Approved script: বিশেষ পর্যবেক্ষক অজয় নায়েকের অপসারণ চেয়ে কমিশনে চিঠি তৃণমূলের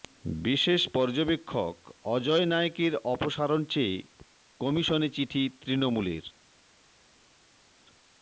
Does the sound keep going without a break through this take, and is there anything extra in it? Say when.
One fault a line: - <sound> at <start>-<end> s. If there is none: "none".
none